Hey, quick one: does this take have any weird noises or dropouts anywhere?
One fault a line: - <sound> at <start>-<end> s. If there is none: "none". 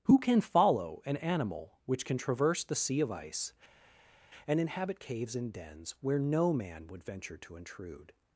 none